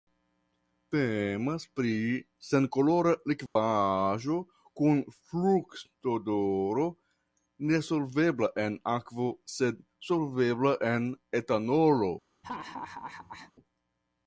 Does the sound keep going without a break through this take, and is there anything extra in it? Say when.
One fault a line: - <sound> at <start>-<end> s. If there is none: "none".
- dropout at 3.5-3.6 s
- laugh at 12.4-13.5 s